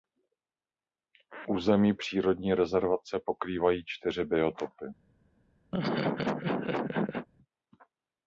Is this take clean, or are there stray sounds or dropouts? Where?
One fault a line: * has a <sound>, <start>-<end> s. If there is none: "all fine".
* has a laugh, 5.7-7.3 s